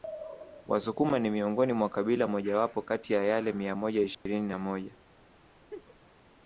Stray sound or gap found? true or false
true